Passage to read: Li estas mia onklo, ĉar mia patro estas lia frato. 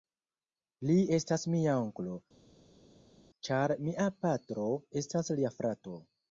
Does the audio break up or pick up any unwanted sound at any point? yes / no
no